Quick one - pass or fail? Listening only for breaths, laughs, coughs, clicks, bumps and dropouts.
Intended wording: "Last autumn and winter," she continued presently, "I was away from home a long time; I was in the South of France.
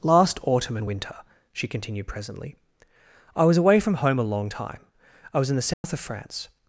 fail